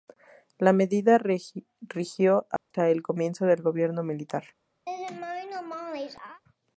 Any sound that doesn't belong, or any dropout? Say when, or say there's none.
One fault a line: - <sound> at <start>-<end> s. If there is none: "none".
- dropout at 2.6-2.7 s
- laugh at 4.9-6.4 s